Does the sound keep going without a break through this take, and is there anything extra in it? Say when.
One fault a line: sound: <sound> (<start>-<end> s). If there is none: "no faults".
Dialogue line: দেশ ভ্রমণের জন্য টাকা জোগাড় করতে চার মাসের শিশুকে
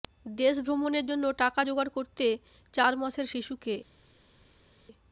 no faults